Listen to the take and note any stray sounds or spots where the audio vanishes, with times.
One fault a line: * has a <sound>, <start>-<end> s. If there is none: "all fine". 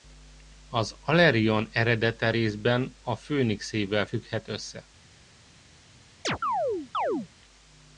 * has a chirp, 6.2-7.3 s